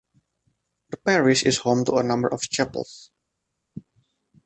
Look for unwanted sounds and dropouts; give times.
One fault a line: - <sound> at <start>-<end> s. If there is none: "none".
none